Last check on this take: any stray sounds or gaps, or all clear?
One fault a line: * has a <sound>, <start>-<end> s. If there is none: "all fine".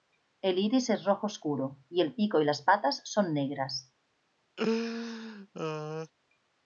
* has a laugh, 4.6-6.1 s